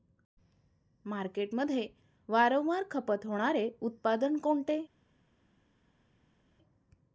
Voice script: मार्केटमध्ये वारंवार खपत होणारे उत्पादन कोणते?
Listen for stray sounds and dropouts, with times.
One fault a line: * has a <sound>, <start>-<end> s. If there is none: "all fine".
all fine